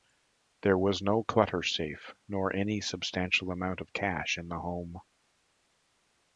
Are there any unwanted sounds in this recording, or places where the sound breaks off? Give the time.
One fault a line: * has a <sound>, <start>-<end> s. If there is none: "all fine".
all fine